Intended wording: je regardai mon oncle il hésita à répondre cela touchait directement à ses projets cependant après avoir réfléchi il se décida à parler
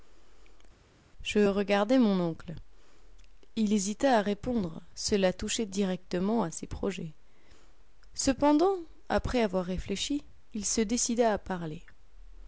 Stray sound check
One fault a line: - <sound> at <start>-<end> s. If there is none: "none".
none